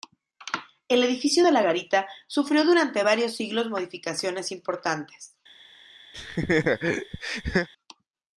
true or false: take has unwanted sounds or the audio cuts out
true